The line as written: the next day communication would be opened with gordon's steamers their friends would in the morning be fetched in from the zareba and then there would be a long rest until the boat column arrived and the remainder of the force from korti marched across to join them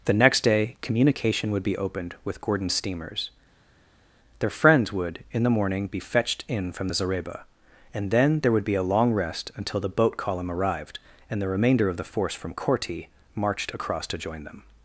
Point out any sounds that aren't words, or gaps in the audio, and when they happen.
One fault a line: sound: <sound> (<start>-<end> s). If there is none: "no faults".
no faults